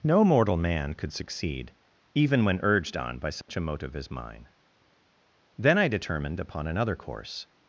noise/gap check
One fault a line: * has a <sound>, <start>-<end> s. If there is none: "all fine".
* has a dropout, 3.4-3.5 s